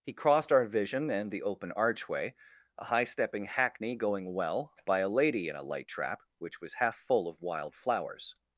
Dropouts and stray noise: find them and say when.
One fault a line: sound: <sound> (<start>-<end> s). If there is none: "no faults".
no faults